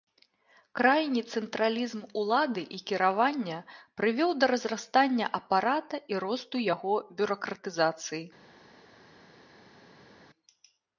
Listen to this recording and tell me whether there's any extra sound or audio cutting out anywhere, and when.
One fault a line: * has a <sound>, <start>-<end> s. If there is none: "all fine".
all fine